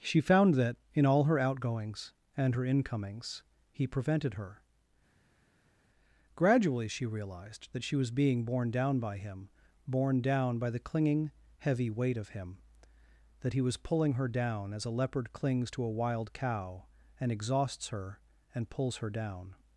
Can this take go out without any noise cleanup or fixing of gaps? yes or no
yes